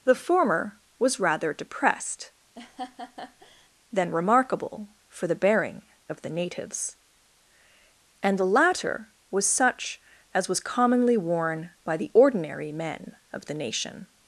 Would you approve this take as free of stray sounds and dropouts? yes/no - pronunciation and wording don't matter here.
no